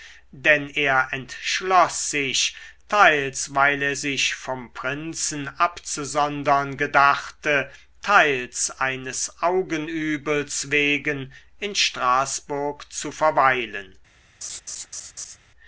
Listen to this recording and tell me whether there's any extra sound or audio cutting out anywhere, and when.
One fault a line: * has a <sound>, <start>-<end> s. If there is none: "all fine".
* has a laugh, 14.4-15.4 s